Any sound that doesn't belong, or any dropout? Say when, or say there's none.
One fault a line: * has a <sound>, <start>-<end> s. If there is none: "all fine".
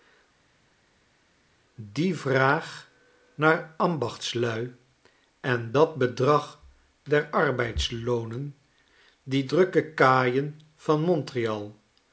all fine